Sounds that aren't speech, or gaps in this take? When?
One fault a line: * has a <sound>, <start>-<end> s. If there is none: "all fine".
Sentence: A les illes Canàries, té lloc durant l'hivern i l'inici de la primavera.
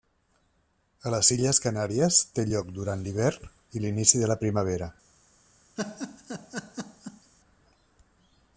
* has a laugh, 5.8-7.3 s